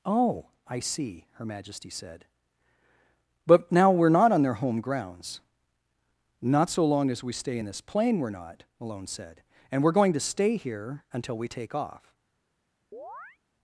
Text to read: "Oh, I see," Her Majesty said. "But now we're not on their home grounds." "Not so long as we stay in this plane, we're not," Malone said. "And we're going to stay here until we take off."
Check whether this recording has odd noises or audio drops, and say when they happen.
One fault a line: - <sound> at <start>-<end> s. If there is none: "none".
- chirp at 12.9-13.4 s